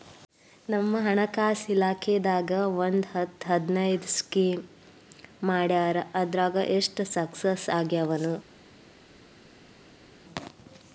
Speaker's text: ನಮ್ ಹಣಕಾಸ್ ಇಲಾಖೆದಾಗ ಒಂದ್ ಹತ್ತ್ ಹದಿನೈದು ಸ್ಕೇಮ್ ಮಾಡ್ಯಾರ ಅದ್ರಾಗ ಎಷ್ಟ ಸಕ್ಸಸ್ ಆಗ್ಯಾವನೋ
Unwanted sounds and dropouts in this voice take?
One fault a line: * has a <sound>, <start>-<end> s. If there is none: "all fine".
all fine